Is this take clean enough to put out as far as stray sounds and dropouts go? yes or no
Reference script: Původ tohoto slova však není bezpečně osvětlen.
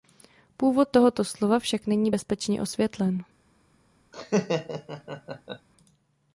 no